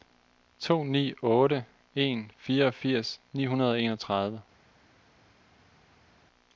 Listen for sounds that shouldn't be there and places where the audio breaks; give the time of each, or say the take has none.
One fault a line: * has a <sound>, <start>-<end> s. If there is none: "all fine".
all fine